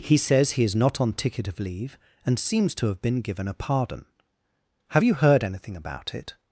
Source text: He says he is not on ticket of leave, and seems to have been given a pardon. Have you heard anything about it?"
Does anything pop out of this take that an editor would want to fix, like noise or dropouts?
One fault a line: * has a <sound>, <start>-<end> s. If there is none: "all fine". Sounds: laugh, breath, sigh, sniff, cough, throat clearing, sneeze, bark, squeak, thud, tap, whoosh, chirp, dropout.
all fine